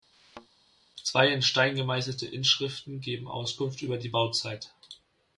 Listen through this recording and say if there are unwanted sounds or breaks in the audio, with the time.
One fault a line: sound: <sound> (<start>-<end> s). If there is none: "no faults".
sound: thud (0.1-0.5 s)